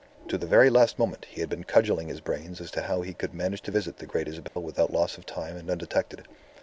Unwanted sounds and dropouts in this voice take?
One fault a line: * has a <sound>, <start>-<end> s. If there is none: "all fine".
* has a dropout, 4.5-4.6 s